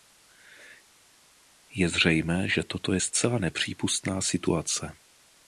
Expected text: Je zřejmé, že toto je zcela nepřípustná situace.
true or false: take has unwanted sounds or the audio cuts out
false